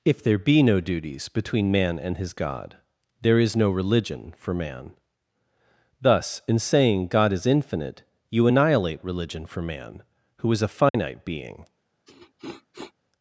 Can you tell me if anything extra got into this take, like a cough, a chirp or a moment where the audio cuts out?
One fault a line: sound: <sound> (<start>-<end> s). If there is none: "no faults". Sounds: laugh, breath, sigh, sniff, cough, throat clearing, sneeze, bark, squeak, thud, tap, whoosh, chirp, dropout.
sound: dropout (10.9-10.9 s)
sound: sniff (12.1-12.9 s)